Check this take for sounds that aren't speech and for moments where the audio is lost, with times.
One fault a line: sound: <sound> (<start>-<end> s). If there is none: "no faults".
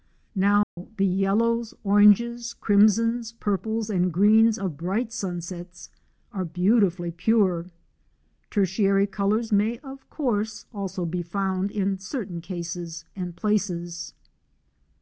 sound: dropout (0.6-0.8 s)